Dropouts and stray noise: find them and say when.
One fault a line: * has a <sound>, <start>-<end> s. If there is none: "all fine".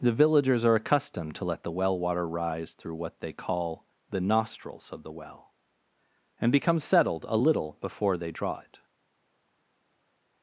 all fine